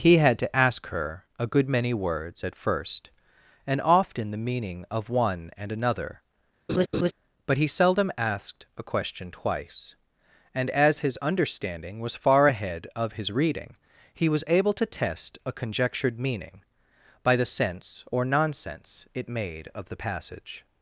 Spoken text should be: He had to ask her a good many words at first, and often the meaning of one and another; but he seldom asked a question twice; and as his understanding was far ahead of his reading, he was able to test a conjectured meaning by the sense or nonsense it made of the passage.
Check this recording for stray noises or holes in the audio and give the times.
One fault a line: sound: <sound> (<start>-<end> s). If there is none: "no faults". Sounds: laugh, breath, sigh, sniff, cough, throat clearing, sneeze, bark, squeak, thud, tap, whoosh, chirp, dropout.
sound: laugh (6.7-7.1 s)